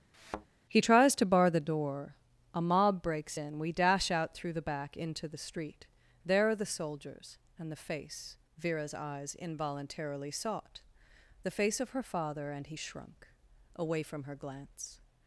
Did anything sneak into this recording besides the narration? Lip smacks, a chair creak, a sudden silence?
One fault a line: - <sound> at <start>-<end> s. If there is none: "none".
- thud at 0.1-0.5 s